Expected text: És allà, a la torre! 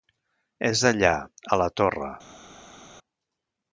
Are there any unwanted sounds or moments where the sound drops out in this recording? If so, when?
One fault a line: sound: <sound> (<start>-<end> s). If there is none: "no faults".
no faults